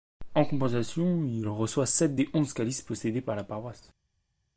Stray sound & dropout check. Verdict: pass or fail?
pass